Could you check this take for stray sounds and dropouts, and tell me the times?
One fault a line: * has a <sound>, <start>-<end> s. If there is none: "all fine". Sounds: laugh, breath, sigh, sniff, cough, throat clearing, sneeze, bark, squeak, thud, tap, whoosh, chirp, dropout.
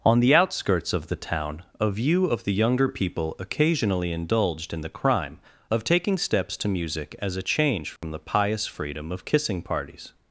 * has a dropout, 8.0-8.0 s